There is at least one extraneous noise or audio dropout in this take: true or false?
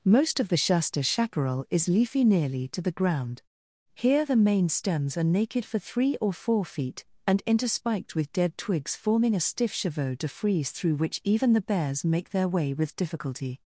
false